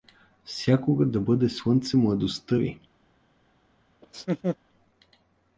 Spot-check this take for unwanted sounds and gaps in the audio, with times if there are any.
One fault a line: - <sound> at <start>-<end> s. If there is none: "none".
- laugh at 4.0-4.6 s